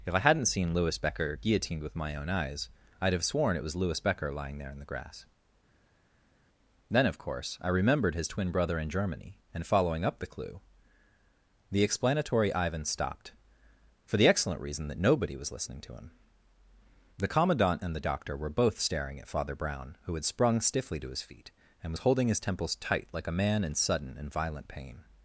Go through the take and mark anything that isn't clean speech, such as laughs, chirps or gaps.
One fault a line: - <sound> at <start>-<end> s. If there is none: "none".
none